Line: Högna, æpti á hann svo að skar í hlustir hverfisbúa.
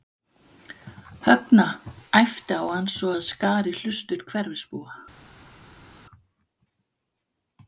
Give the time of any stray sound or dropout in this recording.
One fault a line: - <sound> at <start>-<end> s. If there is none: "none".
none